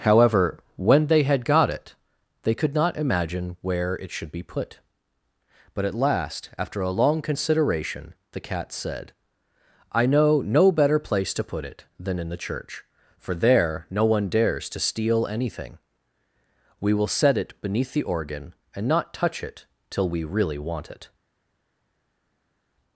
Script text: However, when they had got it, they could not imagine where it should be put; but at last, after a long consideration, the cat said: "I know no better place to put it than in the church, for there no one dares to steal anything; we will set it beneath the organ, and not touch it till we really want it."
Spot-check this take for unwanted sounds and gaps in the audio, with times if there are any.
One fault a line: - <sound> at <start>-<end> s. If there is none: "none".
none